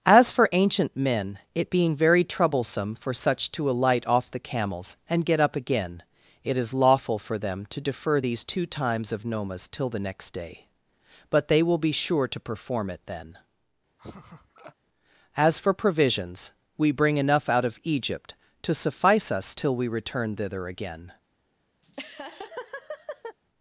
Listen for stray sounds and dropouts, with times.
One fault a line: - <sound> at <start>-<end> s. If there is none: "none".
- laugh at 14.0-14.8 s
- laugh at 21.8-23.4 s